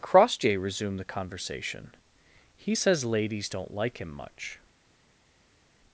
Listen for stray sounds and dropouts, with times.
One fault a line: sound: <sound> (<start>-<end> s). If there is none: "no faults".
no faults